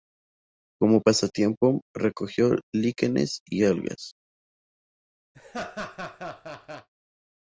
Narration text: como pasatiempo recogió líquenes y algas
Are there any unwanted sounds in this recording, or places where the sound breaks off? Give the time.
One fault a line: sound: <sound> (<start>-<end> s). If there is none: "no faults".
sound: laugh (5.3-6.9 s)